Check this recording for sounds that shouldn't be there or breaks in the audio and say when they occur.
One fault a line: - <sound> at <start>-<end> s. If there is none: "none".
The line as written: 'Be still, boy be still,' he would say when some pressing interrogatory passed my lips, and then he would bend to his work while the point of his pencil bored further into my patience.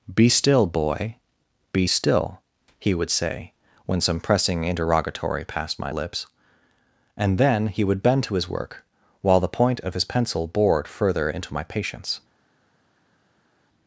none